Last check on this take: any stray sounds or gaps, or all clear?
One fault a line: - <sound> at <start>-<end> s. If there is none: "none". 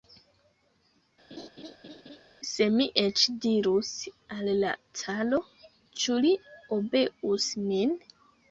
- laugh at 1.3-2.2 s